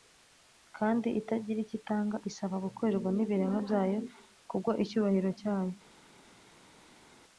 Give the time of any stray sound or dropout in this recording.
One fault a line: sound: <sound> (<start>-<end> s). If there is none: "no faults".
no faults